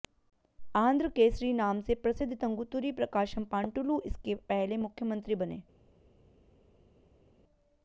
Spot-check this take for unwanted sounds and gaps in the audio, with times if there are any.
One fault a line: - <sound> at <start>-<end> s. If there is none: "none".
none